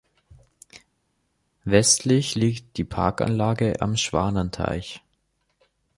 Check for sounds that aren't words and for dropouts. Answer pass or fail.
pass